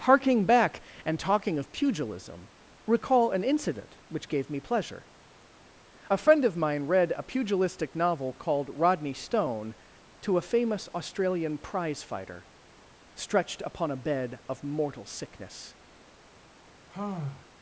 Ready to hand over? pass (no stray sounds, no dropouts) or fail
fail